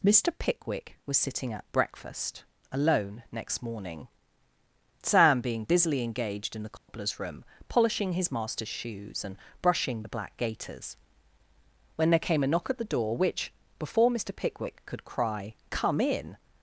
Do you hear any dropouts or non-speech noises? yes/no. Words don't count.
yes